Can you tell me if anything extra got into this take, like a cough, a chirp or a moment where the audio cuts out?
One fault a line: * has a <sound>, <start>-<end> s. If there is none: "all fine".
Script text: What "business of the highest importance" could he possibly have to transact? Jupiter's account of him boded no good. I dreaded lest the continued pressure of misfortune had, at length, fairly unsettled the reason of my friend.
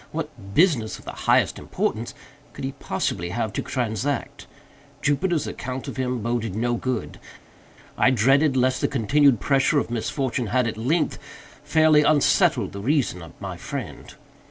all fine